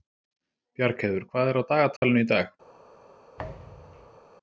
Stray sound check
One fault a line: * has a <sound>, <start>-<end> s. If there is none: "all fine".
* has a dropout, 2.0-2.0 s
* has a thud, 3.4-4.2 s